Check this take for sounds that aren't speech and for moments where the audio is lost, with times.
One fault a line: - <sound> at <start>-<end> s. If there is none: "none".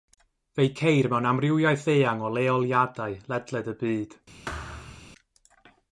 - thud at 4.5-5.1 s